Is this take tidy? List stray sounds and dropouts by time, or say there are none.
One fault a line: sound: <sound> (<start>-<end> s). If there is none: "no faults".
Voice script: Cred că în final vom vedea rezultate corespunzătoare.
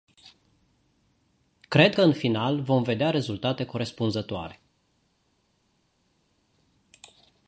no faults